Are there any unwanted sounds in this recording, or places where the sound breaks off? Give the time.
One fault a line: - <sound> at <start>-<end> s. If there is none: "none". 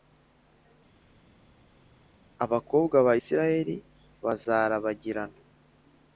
none